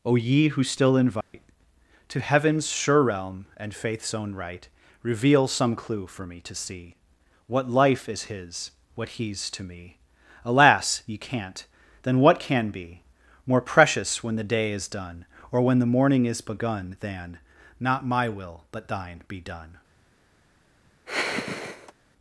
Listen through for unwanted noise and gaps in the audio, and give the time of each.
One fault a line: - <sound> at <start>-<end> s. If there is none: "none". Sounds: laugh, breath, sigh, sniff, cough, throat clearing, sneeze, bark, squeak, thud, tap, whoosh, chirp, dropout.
- dropout at 1.2-1.3 s
- sigh at 21.1-21.9 s